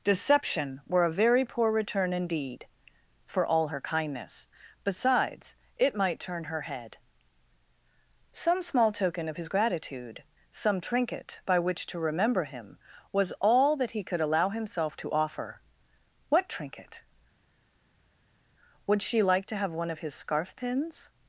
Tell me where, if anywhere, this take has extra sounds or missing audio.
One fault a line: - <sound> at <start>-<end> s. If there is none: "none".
none